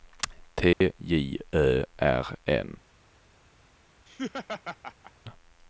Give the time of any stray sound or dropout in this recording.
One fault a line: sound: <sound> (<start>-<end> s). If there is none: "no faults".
sound: dropout (0.7-0.8 s)
sound: laugh (4.1-5.1 s)